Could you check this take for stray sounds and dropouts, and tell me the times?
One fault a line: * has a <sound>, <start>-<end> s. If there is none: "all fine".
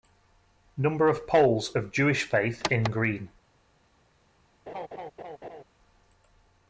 * has a laugh, 4.7-5.6 s